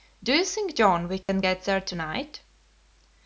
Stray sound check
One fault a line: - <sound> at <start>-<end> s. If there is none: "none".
- dropout at 1.2-1.3 s